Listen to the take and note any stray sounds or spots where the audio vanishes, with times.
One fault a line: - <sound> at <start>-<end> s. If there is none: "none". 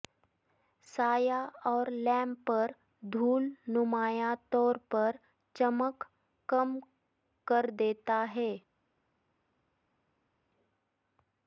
none